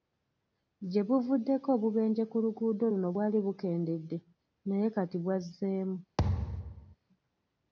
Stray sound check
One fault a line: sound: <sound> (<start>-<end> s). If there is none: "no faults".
sound: thud (6.2-7.0 s)